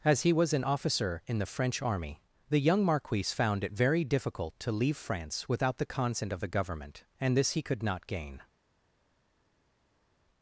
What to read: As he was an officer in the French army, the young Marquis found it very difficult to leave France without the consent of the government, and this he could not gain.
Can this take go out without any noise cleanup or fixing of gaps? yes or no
yes